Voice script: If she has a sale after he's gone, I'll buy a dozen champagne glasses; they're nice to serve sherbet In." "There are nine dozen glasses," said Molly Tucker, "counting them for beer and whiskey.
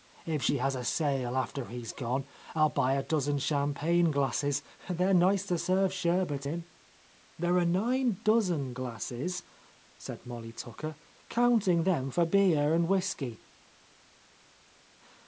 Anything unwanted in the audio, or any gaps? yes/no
no